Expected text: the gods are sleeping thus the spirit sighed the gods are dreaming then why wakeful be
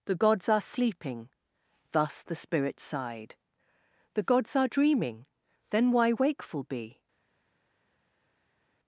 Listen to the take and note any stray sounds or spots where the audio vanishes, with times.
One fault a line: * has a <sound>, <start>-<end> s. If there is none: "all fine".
all fine